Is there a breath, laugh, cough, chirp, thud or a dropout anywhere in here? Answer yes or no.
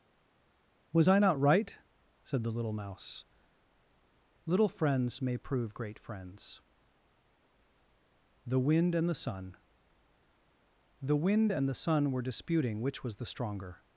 no